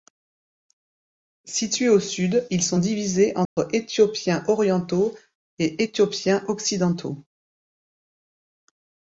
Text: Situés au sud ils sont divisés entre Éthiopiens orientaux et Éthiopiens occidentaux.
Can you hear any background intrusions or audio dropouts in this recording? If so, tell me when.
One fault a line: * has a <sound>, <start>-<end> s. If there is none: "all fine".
* has a dropout, 3.5-3.6 s